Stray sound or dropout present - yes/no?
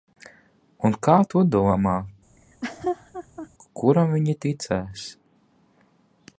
yes